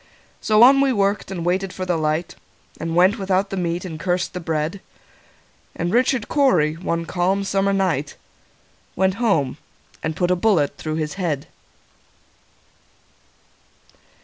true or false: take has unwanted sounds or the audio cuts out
false